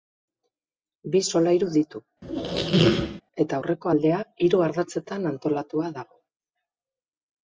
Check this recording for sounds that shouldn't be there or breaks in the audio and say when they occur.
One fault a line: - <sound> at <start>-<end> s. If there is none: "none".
- squeak at 2.2-3.2 s